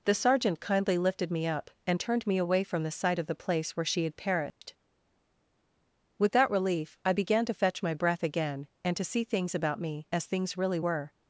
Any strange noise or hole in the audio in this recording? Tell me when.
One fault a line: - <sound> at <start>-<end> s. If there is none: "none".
- dropout at 4.5-4.6 s